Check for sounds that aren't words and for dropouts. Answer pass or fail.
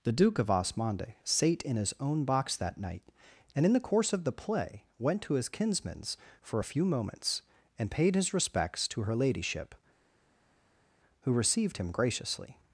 pass